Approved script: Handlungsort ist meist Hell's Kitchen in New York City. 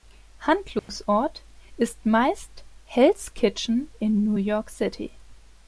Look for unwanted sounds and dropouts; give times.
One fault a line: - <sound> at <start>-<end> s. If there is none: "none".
- dropout at 0.8-0.9 s